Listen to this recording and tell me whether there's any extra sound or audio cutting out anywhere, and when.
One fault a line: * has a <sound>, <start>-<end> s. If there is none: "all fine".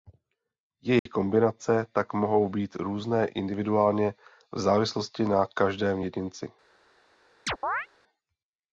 * has a dropout, 1.0-1.1 s
* has a chirp, 7.5-7.9 s